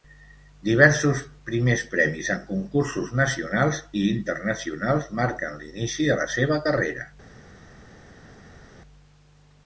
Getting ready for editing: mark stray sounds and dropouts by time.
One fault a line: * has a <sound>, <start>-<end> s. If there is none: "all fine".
all fine